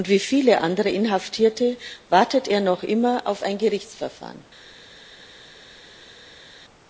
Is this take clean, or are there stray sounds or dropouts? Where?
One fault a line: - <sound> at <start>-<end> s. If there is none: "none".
none